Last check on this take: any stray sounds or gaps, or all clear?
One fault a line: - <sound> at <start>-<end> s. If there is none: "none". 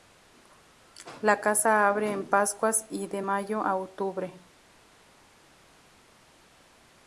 none